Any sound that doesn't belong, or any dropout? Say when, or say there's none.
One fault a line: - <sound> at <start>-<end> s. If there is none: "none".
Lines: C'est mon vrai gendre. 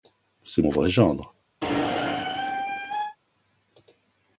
- squeak at 1.6-3.2 s